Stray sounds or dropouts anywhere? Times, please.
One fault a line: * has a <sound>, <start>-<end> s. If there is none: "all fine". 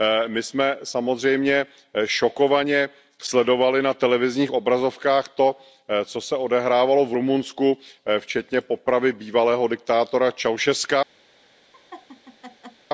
* has a laugh, 11.7-12.9 s